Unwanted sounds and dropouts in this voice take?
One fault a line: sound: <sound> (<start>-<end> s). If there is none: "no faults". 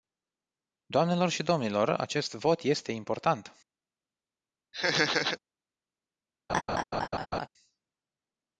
sound: laugh (4.7-5.4 s)
sound: laugh (6.5-7.5 s)